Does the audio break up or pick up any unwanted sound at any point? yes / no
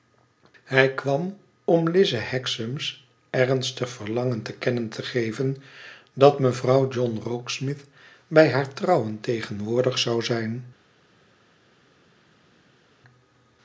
no